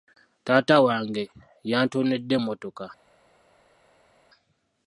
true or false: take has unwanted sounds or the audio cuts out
false